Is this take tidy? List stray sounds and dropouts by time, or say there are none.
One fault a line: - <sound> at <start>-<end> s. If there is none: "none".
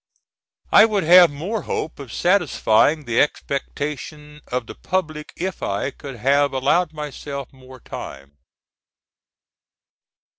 none